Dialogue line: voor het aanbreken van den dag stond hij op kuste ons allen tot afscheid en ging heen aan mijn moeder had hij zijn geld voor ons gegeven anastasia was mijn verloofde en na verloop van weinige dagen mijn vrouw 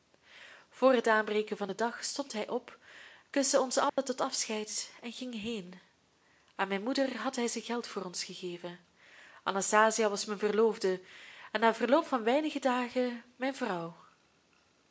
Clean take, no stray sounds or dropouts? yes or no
no